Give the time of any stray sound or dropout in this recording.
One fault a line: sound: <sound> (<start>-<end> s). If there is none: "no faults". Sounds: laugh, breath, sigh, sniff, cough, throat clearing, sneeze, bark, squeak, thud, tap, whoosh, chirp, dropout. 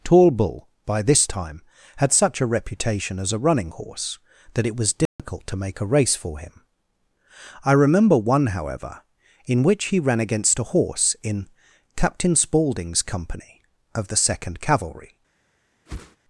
sound: dropout (5.1-5.2 s)
sound: whoosh (15.9-16.2 s)